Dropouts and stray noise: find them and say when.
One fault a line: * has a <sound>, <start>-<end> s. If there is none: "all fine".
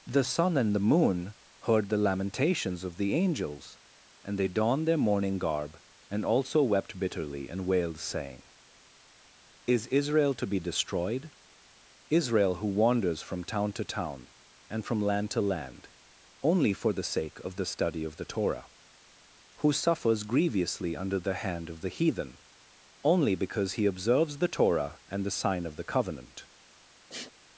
* has a sniff, 27.1-27.3 s